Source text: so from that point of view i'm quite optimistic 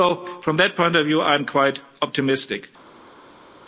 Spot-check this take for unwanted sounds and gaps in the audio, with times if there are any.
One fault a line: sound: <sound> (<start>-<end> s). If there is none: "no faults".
no faults